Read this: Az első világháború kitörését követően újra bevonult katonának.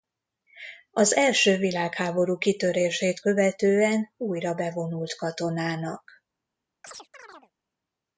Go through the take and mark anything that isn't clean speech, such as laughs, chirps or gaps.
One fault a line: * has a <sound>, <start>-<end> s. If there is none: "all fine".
* has a chirp, 6.8-7.5 s